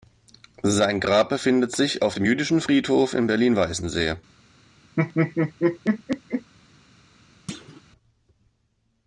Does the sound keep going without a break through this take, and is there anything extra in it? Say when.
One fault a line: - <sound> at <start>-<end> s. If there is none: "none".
- laugh at 5.0-6.5 s
- thud at 7.5-7.8 s